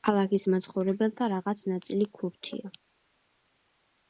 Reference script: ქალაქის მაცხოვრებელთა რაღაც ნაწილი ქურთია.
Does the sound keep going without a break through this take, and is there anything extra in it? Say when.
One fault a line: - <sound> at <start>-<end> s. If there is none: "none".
none